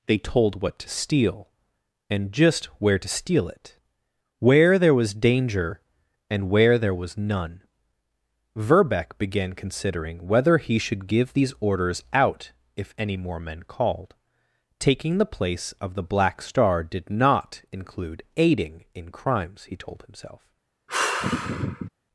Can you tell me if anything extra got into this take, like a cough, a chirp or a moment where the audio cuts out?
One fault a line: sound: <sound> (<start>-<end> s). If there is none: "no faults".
sound: sigh (20.9-21.9 s)